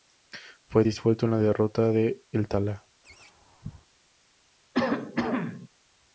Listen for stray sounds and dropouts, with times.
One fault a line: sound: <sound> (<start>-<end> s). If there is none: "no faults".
sound: laugh (3.0-3.9 s)
sound: cough (4.7-5.7 s)